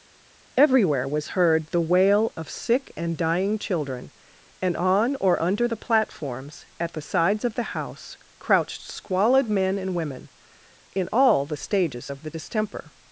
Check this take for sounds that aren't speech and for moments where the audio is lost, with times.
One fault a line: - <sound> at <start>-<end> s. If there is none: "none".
none